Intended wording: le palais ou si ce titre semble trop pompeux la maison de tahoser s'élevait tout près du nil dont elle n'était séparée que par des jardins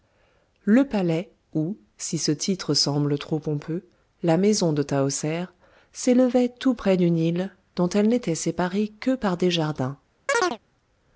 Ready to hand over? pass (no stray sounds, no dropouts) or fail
fail